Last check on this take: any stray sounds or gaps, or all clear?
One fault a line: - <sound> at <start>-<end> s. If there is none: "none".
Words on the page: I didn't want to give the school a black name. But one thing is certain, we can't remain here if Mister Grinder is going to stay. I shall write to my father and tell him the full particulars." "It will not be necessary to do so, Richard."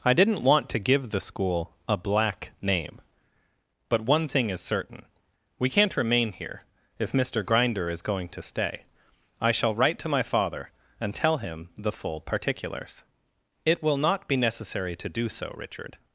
none